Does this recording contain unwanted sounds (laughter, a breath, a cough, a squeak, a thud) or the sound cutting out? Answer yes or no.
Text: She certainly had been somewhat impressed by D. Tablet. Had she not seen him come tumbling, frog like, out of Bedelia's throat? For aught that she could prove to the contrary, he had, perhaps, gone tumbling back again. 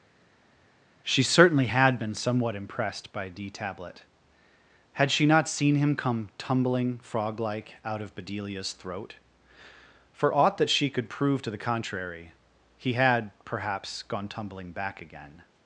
no